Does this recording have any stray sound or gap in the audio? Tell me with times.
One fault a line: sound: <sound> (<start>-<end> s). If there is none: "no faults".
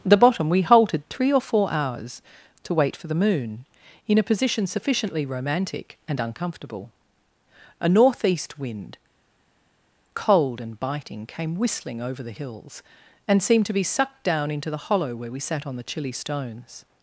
no faults